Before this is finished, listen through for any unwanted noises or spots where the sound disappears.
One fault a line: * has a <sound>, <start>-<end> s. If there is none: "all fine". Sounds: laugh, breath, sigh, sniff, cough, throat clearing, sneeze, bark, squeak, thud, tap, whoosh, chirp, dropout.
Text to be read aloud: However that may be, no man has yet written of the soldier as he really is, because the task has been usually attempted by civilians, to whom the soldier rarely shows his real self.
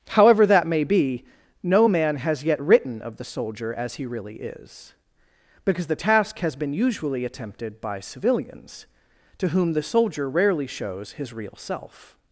all fine